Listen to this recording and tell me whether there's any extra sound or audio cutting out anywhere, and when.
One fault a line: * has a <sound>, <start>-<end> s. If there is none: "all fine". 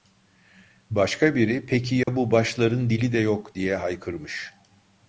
* has a dropout, 2.0-2.1 s